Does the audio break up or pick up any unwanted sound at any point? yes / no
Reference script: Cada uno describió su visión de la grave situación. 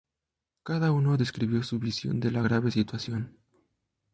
no